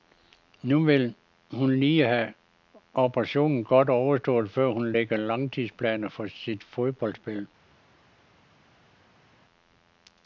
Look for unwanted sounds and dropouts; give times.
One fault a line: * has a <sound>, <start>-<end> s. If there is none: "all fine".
all fine